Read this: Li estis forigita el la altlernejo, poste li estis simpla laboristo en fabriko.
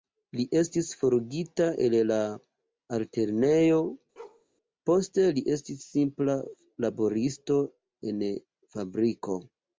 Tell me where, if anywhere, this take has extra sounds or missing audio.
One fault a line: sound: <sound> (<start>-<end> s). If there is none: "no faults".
sound: bark (4.2-4.5 s)